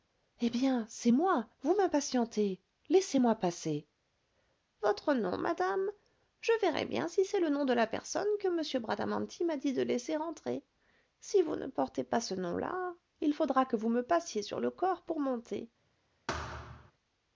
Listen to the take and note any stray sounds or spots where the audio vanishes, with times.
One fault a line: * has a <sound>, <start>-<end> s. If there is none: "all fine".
* has a thud, 16.3-16.9 s